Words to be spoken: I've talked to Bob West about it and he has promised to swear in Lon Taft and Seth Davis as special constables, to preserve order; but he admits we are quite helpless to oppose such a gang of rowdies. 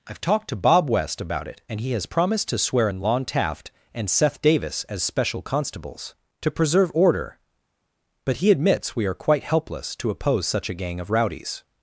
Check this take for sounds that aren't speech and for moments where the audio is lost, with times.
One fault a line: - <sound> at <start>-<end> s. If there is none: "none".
none